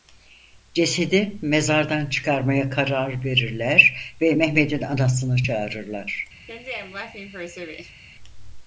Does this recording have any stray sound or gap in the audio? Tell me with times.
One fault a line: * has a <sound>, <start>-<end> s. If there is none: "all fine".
* has a laugh, 6.5-8.0 s